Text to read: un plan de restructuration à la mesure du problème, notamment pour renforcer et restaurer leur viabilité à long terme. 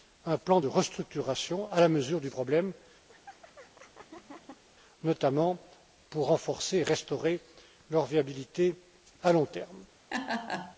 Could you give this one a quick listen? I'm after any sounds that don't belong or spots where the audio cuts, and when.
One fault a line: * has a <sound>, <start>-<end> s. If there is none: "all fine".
* has a laugh, 3.1-4.6 s
* has a laugh, 10.1-10.8 s